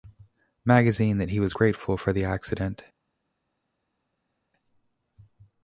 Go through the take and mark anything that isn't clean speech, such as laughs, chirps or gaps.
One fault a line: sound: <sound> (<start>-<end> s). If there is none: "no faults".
no faults